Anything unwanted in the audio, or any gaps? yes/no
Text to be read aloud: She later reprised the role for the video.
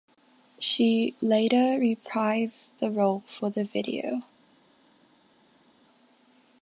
no